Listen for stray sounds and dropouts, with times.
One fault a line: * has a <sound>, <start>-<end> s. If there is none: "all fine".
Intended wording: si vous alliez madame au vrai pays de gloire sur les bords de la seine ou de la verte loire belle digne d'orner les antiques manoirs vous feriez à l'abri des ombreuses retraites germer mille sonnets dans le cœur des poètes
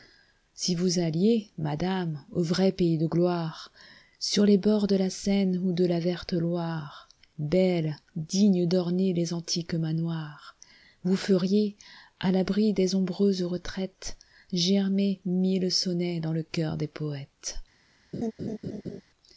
* has a laugh, 18.1-19.0 s